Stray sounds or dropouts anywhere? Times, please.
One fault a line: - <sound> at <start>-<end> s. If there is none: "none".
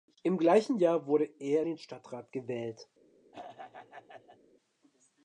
- throat clearing at 3.3-4.4 s